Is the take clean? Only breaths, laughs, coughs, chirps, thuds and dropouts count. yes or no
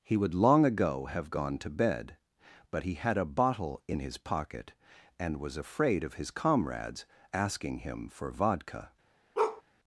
no